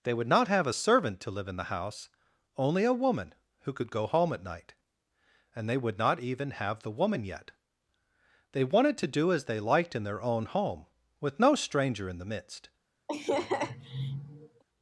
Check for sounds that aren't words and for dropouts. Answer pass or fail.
fail